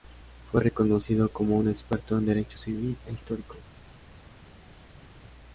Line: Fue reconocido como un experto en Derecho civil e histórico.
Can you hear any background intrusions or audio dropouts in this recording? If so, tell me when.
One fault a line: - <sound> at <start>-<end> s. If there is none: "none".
none